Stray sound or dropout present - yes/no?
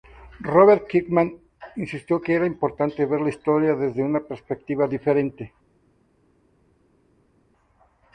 no